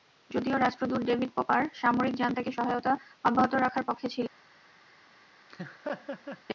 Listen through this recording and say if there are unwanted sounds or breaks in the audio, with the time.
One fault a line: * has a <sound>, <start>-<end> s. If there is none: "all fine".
* has a laugh, 5.5-6.4 s